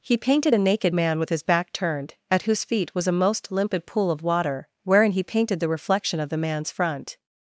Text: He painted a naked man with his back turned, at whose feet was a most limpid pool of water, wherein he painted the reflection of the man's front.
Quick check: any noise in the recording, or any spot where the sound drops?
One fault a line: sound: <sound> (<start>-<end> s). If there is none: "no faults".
no faults